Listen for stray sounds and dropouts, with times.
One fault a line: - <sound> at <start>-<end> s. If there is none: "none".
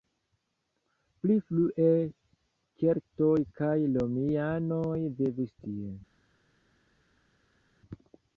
none